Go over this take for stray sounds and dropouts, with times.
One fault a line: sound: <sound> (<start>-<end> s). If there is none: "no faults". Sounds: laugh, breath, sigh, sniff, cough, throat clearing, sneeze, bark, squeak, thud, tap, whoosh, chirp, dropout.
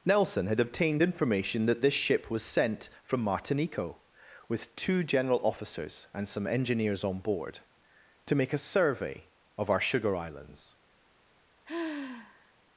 sound: sigh (11.6-12.5 s)